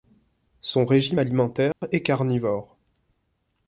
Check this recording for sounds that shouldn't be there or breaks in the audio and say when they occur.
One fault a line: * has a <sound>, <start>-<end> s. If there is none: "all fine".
* has a dropout, 1.7-1.8 s